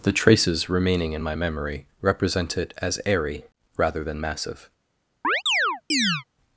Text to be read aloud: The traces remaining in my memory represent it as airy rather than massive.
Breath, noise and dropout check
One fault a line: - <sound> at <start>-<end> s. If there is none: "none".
- chirp at 5.2-6.2 s